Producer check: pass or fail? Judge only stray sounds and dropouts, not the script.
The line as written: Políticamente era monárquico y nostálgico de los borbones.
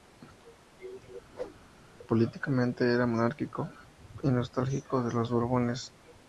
fail